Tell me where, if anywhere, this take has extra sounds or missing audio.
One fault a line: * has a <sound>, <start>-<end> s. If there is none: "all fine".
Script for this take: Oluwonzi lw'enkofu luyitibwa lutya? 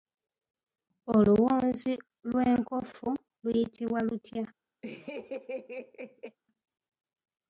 * has a laugh, 4.8-6.4 s